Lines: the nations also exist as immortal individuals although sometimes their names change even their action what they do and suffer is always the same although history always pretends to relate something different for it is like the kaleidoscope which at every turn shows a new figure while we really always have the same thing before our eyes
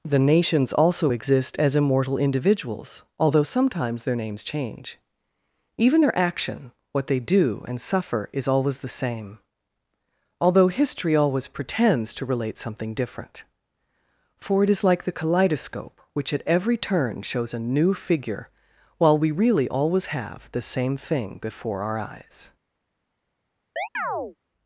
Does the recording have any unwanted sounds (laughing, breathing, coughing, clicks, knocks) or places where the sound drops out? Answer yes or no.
yes